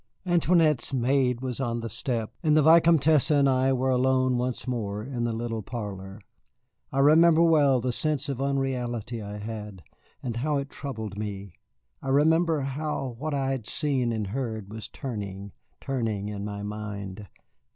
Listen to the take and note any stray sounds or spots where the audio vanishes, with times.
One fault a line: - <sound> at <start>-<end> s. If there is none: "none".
none